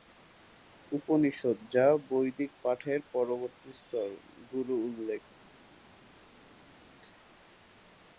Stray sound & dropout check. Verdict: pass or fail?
pass